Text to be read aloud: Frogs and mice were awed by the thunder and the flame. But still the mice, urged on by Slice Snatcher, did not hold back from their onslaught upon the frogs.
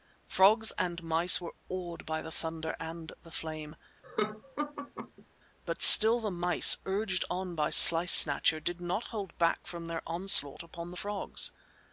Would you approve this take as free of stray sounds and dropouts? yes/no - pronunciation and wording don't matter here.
no